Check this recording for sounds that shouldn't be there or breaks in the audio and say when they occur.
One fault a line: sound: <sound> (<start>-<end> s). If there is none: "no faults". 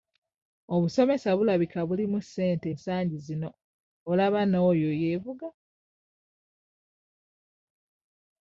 no faults